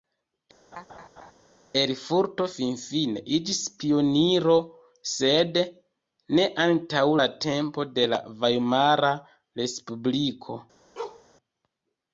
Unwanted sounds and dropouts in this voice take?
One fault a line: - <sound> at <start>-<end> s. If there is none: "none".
- laugh at 0.7-1.3 s
- bark at 11.0-11.3 s